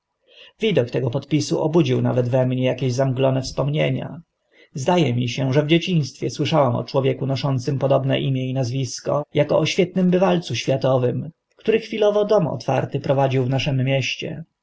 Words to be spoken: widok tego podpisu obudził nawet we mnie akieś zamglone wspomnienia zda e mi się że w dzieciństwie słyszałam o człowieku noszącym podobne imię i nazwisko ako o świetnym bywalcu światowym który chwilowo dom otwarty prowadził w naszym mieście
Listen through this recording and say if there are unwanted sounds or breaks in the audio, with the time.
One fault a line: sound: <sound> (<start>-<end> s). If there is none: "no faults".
no faults